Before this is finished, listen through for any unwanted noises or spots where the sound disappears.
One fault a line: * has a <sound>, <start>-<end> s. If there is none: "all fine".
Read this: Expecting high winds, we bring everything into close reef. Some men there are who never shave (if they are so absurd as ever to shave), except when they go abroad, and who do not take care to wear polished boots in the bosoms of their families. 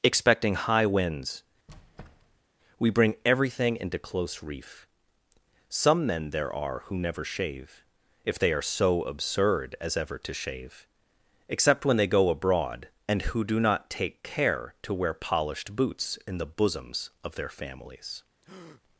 * has a squeak, 1.7-2.4 s
* has a breath, 18.4-18.8 s